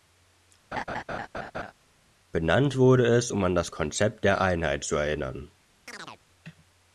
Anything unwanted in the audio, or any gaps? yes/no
yes